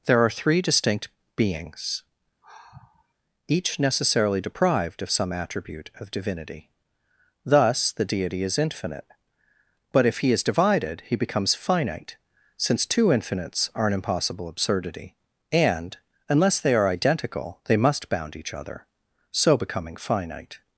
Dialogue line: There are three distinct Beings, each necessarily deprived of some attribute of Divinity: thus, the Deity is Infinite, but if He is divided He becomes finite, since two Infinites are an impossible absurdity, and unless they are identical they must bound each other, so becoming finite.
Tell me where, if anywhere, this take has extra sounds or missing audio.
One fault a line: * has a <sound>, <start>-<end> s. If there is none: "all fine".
* has a sigh, 2.4-3.1 s